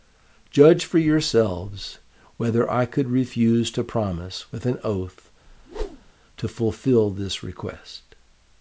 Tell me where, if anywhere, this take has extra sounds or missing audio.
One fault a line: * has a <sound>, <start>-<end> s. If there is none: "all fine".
* has a whoosh, 5.5-6.1 s